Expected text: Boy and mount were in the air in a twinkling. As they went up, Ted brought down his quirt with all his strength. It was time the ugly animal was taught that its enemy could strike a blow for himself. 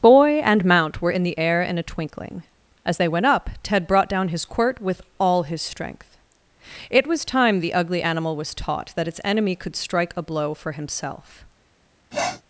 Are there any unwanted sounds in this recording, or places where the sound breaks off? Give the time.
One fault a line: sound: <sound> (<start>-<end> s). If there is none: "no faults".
sound: sniff (12.1-12.4 s)